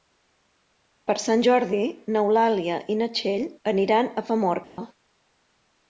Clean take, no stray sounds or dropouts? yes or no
no